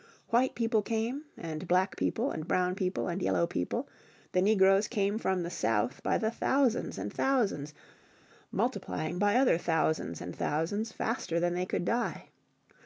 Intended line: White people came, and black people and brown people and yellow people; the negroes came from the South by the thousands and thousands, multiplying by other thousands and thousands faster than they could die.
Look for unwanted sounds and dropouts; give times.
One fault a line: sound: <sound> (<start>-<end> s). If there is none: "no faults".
no faults